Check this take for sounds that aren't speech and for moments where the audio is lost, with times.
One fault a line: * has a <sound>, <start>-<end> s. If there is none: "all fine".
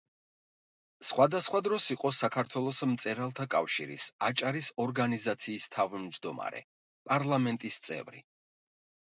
all fine